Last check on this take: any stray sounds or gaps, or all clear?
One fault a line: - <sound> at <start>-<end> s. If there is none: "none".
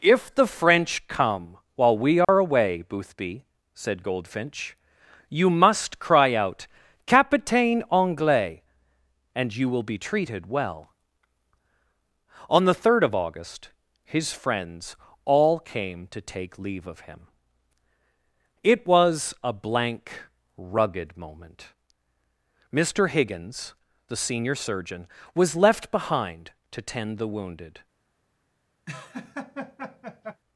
- dropout at 2.2-2.3 s
- laugh at 28.9-30.4 s